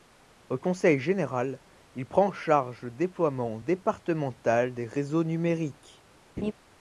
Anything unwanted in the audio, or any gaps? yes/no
yes